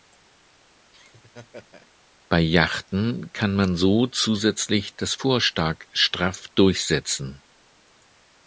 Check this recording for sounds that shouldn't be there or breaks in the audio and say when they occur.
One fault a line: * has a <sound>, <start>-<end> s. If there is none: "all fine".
* has a laugh, 0.9-1.9 s